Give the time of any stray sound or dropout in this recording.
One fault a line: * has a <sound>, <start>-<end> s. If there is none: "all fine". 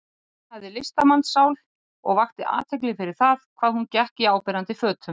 all fine